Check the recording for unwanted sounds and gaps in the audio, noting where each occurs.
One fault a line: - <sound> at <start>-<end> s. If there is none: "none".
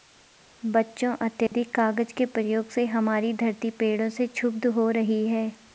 - dropout at 1.5-1.5 s